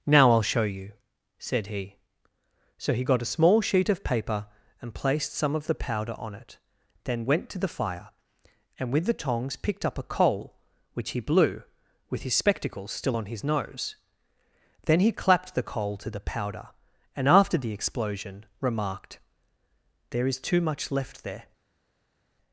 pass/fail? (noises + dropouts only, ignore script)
pass